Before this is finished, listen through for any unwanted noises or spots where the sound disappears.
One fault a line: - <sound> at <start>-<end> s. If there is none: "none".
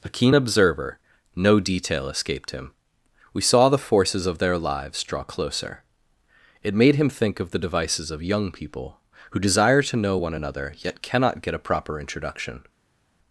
none